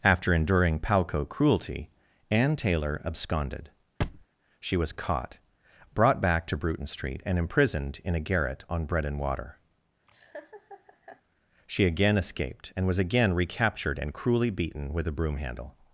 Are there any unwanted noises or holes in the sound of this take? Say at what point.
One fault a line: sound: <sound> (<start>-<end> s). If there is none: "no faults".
sound: thud (4.0-4.3 s)
sound: laugh (10.1-11.2 s)